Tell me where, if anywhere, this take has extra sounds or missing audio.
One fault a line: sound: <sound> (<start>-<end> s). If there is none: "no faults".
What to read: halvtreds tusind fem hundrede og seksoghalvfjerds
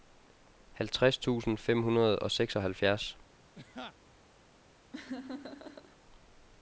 sound: laugh (3.5-3.9 s)
sound: laugh (4.9-6.0 s)